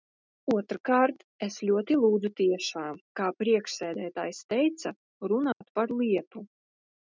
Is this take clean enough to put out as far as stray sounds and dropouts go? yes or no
no